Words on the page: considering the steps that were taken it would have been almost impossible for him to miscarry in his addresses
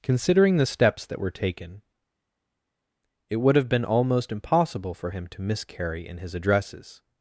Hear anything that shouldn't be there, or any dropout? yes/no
no